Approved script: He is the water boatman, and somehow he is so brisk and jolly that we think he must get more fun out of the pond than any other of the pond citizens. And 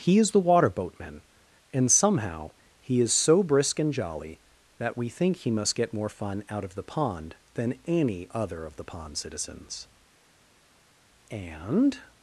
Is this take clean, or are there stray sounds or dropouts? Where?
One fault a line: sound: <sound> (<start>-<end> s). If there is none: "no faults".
no faults